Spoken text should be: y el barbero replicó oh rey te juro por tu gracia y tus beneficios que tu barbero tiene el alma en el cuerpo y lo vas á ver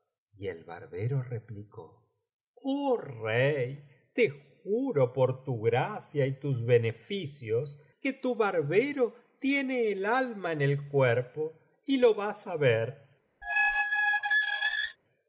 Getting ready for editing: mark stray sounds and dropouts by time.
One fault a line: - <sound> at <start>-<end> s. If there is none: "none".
- squeak at 13.4-15.0 s